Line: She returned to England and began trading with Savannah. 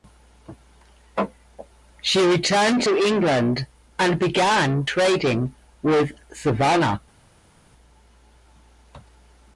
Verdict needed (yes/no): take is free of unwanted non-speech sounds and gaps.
yes